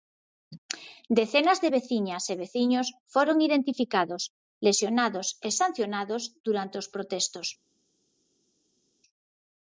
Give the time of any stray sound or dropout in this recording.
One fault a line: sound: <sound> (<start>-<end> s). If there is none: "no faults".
no faults